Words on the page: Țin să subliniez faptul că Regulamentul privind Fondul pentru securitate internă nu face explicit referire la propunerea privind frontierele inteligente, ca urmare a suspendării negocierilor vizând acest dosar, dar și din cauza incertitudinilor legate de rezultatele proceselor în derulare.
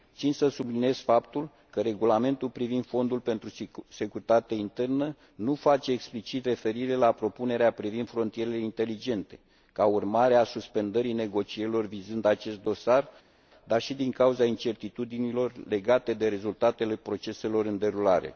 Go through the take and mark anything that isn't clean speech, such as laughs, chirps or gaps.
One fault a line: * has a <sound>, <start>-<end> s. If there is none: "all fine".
all fine